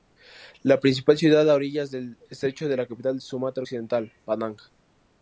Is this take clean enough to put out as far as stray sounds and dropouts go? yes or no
yes